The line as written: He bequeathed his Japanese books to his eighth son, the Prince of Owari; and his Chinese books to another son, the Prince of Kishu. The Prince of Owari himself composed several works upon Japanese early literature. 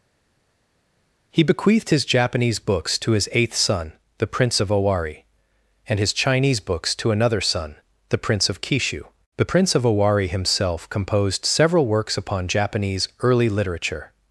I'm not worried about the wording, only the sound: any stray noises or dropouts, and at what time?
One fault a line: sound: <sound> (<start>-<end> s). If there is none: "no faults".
no faults